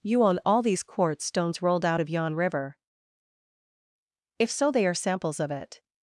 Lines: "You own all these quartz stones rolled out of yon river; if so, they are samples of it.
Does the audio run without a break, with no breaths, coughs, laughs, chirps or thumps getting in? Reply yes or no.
yes